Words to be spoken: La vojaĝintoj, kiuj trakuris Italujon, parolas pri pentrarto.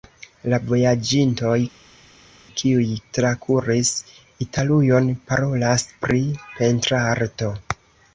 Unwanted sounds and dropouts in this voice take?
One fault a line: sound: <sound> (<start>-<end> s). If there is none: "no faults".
no faults